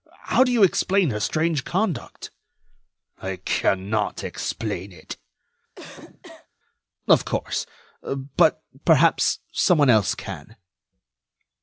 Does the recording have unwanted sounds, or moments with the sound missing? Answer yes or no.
yes